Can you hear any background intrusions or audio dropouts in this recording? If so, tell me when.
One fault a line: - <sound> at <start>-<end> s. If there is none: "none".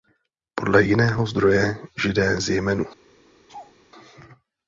- laugh at 3.5-3.7 s